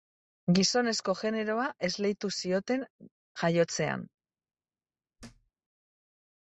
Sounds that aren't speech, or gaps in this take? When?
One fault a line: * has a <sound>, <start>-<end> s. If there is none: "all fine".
* has a thud, 5.2-5.5 s